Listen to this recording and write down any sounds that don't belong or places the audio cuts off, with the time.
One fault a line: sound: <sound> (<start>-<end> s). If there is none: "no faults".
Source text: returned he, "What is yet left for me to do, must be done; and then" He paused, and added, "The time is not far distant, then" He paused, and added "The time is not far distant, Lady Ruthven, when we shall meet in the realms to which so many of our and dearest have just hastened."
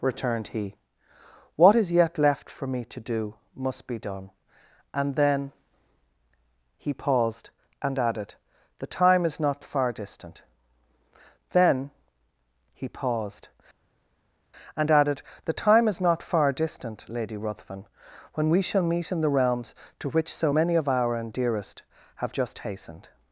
no faults